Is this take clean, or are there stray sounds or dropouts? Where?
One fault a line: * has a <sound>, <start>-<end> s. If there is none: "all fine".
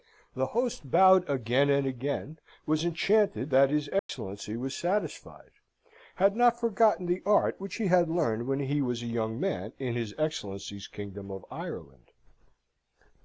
* has a dropout, 4.0-4.1 s